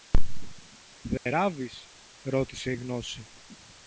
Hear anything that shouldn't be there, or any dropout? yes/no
yes